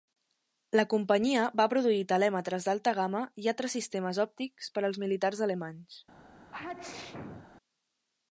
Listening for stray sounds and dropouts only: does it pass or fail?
fail